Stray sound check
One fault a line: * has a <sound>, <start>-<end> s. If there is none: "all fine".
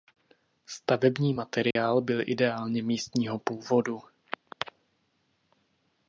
* has a dropout, 1.7-1.8 s